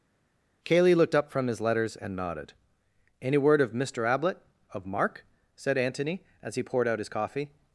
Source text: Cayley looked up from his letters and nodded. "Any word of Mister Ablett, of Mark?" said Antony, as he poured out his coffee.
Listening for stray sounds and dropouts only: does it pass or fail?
pass